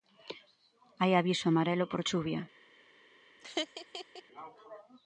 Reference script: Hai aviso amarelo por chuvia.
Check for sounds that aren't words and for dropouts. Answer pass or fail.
fail